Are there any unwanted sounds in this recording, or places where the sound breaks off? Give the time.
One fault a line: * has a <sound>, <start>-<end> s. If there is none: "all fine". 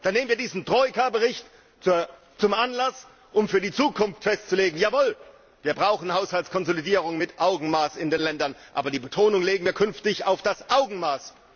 all fine